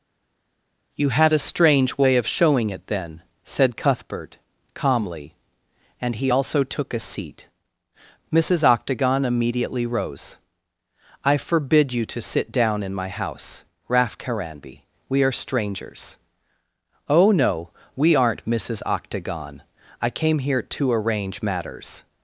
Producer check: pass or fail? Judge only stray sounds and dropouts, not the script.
pass